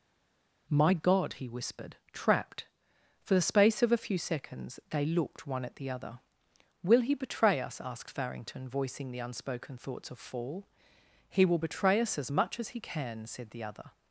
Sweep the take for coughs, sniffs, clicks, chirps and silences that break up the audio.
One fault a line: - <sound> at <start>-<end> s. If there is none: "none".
none